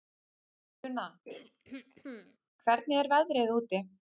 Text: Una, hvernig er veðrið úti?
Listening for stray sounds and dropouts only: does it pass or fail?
fail